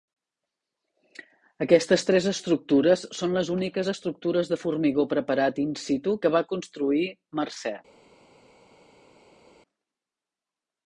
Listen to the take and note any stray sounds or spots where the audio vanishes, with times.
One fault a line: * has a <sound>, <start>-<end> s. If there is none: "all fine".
all fine